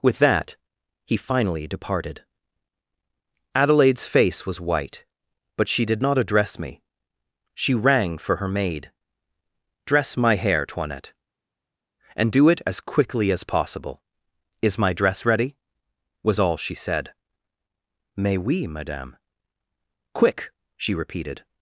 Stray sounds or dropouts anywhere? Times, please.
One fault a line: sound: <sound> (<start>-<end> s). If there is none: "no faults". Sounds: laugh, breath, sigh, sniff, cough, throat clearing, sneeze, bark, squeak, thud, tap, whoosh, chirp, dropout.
no faults